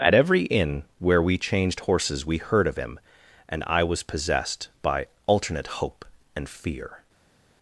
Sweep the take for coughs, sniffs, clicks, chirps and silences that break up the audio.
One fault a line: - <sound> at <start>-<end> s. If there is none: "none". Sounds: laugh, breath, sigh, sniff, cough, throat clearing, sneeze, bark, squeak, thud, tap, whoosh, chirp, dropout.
none